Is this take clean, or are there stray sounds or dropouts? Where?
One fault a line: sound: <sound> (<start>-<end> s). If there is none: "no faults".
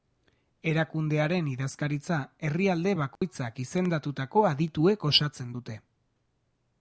sound: dropout (3.2-3.2 s)